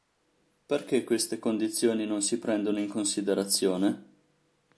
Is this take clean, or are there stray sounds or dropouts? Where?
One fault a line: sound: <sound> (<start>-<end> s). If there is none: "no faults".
no faults